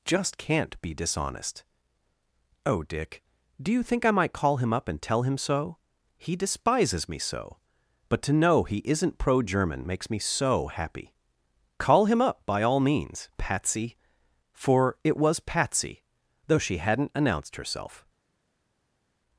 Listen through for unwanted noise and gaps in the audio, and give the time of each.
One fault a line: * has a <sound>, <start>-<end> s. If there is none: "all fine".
all fine